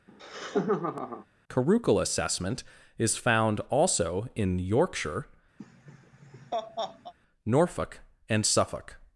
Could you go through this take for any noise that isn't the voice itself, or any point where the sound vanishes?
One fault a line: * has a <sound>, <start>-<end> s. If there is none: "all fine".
* has a laugh, 0.1-1.3 s
* has a laugh, 5.6-7.1 s